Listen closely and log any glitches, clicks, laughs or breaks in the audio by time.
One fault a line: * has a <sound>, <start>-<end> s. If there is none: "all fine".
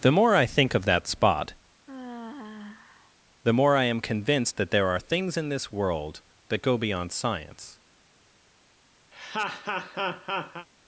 * has a sigh, 1.9-3.1 s
* has a laugh, 9.1-10.7 s